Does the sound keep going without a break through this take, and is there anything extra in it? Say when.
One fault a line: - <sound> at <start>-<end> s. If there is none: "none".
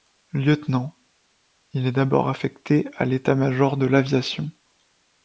none